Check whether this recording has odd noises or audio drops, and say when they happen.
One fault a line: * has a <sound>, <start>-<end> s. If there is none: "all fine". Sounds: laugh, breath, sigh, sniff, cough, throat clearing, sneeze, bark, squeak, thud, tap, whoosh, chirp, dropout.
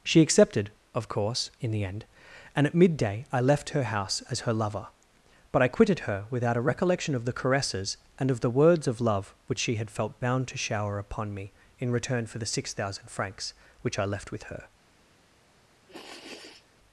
* has a sniff, 15.9-16.7 s